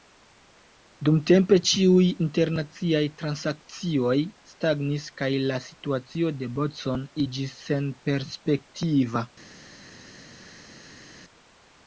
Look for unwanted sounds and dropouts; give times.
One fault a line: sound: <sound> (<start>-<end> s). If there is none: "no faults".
no faults